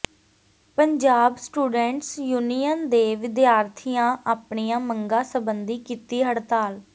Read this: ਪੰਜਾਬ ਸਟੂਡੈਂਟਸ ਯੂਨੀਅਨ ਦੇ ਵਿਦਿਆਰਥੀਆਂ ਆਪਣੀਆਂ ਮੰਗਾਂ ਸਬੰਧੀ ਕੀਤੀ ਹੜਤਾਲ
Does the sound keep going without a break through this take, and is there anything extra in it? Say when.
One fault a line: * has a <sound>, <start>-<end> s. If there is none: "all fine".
all fine